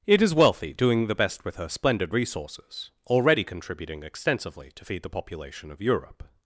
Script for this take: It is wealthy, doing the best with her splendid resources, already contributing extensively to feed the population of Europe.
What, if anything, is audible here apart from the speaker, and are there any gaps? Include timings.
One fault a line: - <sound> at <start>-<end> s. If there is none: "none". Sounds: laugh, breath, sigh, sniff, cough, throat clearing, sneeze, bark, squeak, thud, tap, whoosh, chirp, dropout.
none